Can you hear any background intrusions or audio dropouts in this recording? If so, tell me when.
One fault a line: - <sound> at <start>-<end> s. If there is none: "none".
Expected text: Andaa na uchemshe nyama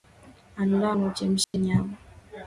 - dropout at 1.4-1.5 s